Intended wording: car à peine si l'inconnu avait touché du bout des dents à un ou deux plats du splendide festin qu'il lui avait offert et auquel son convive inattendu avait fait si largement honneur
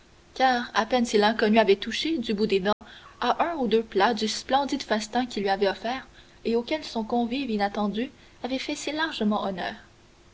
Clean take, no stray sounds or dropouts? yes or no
no